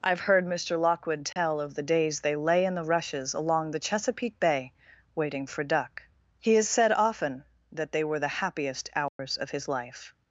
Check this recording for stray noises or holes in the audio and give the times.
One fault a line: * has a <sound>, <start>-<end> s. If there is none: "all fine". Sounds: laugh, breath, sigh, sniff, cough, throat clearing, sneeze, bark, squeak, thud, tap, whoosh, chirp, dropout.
* has a dropout, 1.3-1.4 s
* has a dropout, 9.1-9.2 s